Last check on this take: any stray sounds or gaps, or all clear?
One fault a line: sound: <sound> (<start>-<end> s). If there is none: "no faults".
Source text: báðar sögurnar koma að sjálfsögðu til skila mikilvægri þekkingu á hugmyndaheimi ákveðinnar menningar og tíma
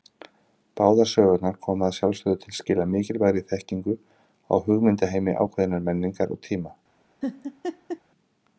sound: laugh (7.2-8.0 s)